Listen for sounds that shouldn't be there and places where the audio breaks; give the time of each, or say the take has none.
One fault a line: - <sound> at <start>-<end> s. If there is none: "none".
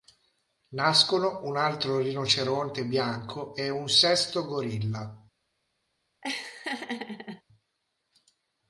- laugh at 6.2-7.4 s